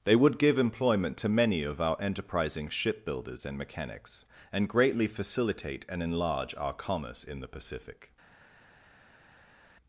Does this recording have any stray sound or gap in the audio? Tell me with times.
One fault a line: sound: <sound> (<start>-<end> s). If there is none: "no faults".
no faults